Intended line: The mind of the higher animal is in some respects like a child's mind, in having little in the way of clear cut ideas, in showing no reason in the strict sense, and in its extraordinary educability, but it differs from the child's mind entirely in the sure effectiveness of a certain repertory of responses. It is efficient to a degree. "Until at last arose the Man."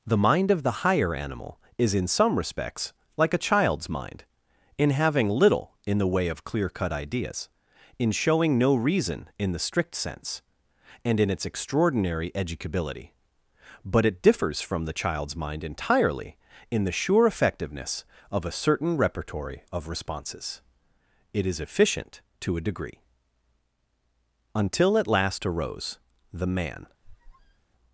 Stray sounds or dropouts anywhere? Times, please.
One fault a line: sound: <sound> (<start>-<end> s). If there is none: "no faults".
sound: squeak (27.0-27.7 s)